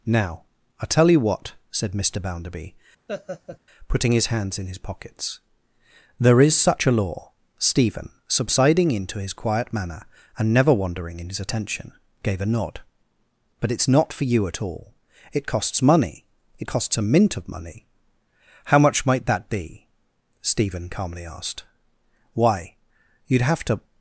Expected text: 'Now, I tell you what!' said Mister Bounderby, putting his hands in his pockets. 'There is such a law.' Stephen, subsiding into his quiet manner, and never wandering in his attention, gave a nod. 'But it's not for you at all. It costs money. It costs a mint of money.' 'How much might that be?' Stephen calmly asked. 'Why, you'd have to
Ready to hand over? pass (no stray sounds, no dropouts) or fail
fail